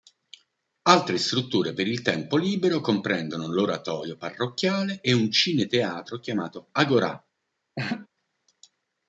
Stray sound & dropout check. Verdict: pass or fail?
fail